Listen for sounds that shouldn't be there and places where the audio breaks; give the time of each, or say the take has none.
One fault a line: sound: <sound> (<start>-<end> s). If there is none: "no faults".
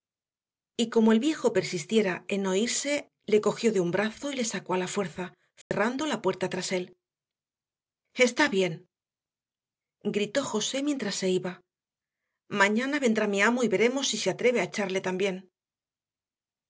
sound: dropout (5.6-5.7 s)